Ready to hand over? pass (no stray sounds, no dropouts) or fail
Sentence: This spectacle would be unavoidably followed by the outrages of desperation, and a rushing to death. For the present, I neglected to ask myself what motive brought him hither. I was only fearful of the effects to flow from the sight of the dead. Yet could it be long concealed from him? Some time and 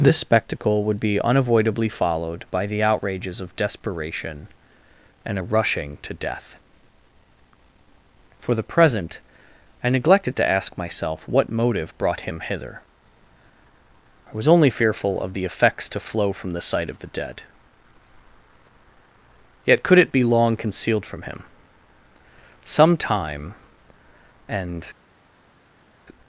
pass